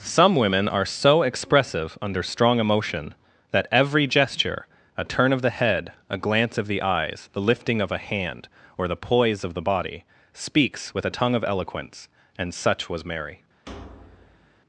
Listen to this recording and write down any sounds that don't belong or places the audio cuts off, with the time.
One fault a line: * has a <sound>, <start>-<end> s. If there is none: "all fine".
* has a thud, 13.7-14.6 s